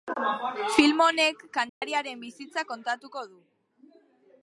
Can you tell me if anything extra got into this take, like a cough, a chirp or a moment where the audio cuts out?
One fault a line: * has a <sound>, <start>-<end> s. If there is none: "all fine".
* has a dropout, 1.7-1.8 s